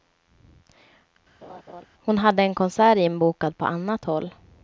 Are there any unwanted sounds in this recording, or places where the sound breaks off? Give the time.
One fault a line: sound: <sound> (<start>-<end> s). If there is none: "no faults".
sound: laugh (1.4-1.9 s)